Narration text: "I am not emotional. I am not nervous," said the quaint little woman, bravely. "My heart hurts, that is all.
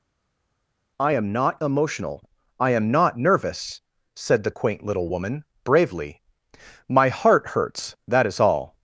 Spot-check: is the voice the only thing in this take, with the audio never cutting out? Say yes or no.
yes